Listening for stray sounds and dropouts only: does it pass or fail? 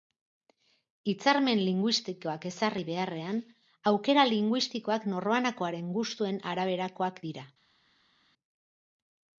pass